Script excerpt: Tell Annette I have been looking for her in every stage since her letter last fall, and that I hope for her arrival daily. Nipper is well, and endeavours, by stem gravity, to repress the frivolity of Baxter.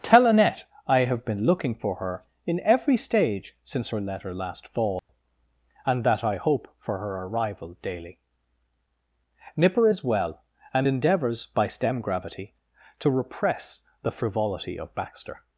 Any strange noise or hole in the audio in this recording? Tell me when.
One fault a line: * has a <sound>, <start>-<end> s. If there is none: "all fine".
* has a dropout, 5.0-5.1 s